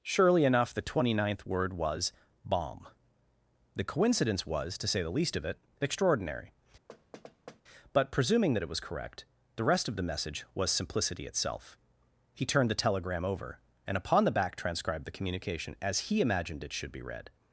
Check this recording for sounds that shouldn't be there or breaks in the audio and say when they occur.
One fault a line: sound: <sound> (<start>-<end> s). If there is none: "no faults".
sound: thud (6.9-7.6 s)